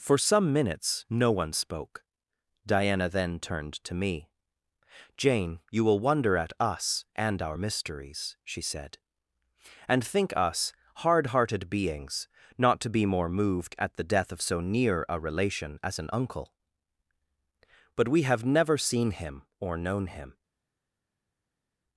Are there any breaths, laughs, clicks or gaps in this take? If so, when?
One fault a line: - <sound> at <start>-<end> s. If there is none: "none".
none